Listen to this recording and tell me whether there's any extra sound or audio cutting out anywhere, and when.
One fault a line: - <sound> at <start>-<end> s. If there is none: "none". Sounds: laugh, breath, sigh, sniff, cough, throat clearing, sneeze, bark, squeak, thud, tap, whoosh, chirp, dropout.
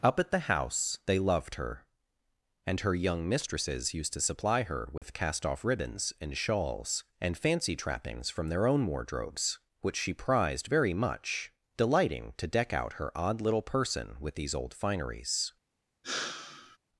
- dropout at 5.0-5.0 s
- sigh at 16.0-16.8 s